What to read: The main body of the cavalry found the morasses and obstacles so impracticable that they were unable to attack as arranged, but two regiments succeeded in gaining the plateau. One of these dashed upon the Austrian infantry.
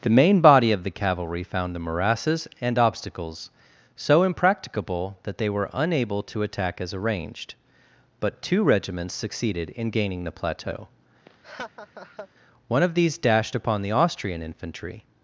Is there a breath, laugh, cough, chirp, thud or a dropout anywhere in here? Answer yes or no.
yes